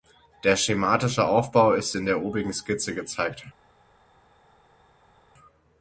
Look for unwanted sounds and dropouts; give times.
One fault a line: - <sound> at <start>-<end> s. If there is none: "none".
none